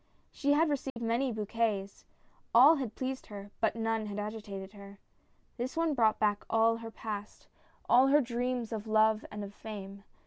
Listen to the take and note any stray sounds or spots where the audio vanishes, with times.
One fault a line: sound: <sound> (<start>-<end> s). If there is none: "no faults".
sound: dropout (0.9-1.0 s)